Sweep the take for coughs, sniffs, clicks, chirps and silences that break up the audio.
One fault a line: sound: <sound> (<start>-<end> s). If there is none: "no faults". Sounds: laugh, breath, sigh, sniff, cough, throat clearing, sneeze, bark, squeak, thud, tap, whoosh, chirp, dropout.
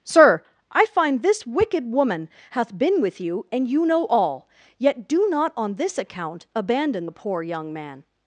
no faults